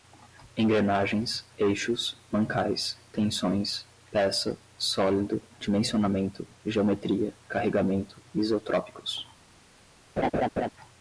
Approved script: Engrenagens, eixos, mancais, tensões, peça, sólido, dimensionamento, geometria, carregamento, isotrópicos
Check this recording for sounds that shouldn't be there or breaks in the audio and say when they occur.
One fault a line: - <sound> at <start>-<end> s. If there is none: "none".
- laugh at 10.2-10.7 s